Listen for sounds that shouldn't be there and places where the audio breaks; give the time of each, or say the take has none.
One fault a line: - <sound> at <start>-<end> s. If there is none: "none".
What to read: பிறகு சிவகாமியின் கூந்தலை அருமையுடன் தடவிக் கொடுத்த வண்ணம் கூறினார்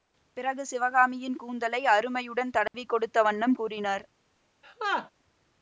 - dropout at 2.7-2.7 s
- laugh at 4.6-5.1 s